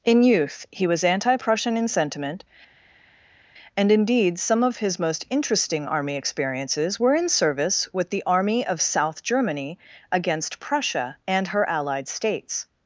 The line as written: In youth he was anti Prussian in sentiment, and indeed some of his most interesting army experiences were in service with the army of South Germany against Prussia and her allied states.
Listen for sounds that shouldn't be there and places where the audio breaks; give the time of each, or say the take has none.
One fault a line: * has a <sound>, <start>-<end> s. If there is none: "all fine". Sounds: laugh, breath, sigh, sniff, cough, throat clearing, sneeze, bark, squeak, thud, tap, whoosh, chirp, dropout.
all fine